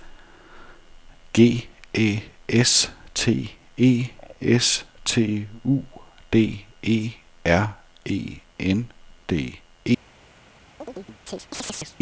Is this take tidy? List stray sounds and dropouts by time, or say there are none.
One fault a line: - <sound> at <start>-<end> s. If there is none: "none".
- chirp at 10.8-12.0 s